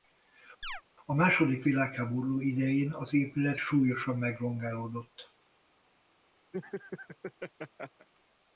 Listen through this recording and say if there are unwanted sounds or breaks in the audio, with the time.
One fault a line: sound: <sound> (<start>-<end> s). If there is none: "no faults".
sound: chirp (0.6-0.8 s)
sound: laugh (6.5-8.1 s)